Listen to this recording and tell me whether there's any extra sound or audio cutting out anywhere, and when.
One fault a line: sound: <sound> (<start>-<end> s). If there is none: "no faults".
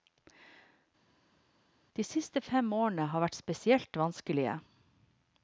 no faults